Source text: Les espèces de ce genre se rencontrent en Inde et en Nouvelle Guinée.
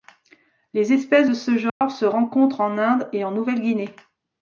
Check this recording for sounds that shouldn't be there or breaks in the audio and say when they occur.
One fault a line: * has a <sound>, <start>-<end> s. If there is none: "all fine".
* has a dropout, 1.7-1.8 s